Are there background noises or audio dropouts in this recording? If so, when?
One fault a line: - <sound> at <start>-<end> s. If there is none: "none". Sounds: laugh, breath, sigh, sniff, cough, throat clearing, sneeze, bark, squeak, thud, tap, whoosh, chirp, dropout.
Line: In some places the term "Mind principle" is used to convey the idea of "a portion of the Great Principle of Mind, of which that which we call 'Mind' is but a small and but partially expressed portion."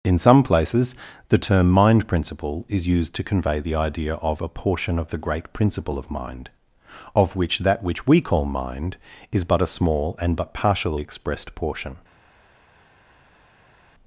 none